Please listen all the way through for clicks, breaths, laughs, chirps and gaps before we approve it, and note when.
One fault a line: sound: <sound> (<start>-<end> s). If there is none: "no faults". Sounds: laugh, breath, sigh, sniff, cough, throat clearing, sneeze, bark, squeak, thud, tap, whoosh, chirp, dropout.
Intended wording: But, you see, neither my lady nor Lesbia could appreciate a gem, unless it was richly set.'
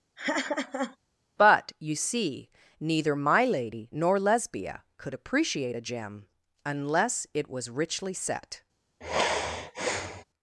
sound: laugh (0.2-1.0 s)
sound: sigh (9.0-10.2 s)